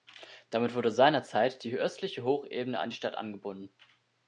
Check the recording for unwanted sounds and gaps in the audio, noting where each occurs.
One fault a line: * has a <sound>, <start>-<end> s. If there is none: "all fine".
all fine